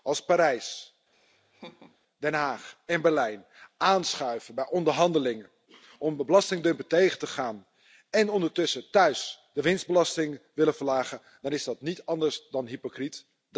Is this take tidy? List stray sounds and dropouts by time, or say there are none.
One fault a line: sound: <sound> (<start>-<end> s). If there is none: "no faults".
sound: laugh (1.1-2.0 s)